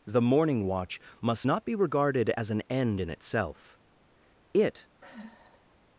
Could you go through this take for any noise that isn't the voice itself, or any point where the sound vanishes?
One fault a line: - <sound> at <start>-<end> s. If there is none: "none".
- sigh at 5.0-5.8 s